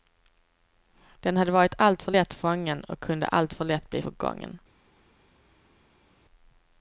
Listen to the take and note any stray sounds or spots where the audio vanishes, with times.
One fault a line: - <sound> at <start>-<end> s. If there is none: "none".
none